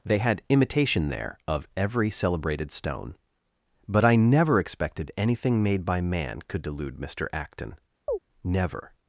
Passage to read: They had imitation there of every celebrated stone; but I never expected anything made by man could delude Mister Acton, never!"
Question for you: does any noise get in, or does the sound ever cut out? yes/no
yes